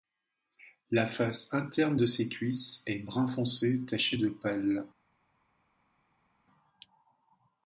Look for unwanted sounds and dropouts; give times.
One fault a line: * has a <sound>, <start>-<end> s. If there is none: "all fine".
all fine